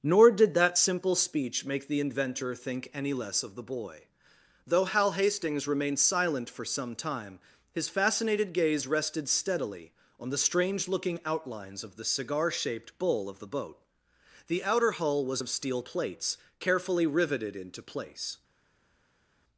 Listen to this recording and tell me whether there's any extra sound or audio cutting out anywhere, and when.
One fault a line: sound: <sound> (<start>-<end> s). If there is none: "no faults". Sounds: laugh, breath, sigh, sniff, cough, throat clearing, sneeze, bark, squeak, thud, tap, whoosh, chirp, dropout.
no faults